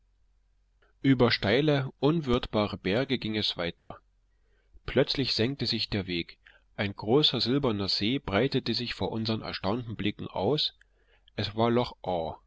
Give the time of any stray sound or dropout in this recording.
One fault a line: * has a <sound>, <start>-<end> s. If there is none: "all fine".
* has a dropout, 3.8-3.9 s